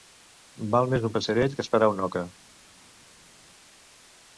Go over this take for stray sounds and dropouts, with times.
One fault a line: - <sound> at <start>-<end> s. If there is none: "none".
none